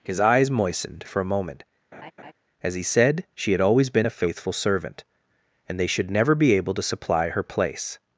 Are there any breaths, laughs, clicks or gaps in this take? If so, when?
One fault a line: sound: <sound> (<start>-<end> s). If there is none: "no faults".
sound: laugh (1.9-2.3 s)